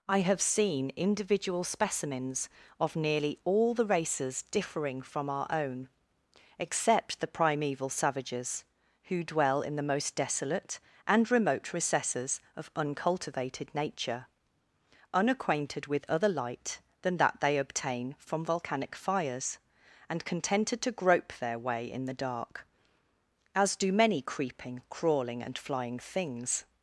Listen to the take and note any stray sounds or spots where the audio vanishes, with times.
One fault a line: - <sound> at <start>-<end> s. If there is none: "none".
none